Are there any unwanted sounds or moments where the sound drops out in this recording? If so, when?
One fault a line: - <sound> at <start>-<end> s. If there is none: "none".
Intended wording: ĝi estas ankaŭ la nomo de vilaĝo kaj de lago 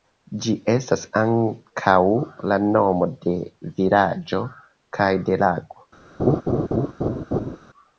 - laugh at 6.2-7.6 s